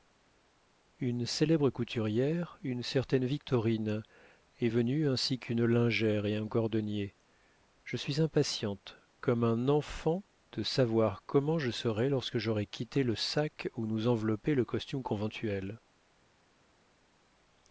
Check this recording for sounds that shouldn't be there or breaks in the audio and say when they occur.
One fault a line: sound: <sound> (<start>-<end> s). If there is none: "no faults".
no faults